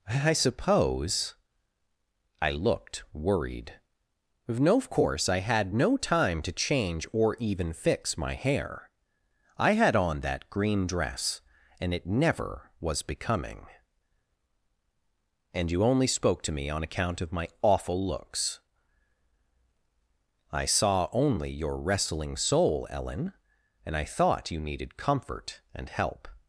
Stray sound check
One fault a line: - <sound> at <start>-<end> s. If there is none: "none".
none